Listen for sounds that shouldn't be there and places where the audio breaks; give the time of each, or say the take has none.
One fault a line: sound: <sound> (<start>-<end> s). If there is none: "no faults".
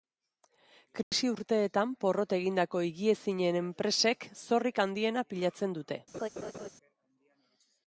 sound: dropout (1.0-1.1 s)
sound: laugh (6.1-6.7 s)